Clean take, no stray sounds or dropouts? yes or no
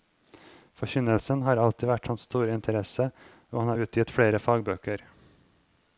yes